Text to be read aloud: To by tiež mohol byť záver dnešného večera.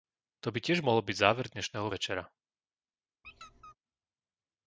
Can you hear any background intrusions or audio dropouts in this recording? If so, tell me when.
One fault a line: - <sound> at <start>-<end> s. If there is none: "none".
- squeak at 3.2-3.8 s